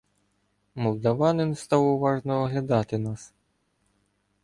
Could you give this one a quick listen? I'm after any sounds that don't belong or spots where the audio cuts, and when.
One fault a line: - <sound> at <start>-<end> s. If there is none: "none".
none